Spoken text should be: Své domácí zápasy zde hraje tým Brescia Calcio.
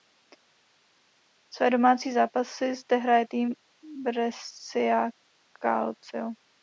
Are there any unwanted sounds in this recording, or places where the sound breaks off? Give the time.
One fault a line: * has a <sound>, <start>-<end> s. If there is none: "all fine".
all fine